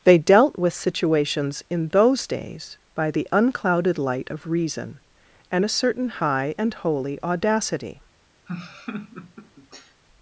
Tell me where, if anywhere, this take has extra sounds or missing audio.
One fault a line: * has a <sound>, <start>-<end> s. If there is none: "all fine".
* has a laugh, 8.5-10.0 s